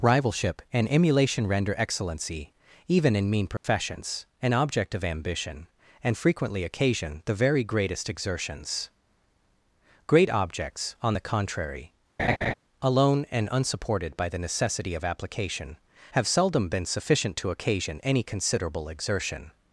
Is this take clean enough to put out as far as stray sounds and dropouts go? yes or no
no